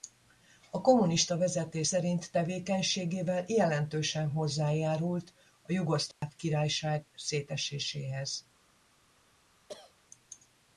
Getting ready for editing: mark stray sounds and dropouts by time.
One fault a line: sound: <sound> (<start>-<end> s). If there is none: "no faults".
sound: dropout (6.1-6.2 s)
sound: cough (9.7-9.9 s)